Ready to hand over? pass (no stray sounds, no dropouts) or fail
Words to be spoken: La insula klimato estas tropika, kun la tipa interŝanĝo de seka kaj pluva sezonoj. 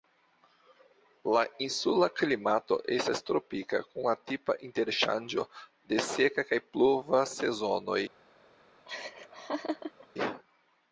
fail